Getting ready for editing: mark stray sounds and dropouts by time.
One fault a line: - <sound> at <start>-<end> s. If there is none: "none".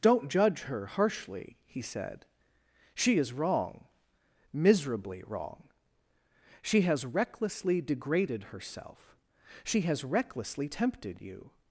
none